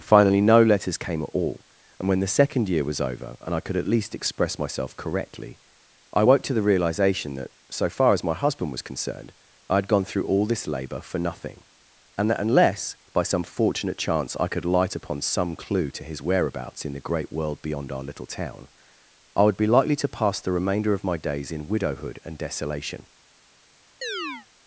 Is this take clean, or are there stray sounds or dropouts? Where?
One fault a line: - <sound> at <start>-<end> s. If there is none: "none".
- chirp at 24.0-24.5 s